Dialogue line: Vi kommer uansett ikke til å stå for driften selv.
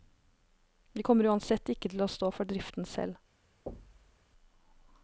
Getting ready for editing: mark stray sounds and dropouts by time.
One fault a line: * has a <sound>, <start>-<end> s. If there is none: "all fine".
* has a thud, 3.7-4.2 s